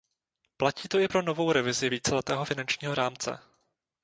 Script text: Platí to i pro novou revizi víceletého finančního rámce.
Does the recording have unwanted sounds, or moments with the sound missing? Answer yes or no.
no